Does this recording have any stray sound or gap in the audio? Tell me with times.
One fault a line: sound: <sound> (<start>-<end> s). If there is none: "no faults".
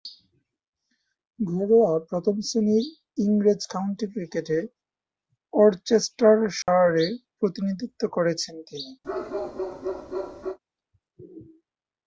sound: dropout (6.6-6.7 s)
sound: bark (9.0-10.6 s)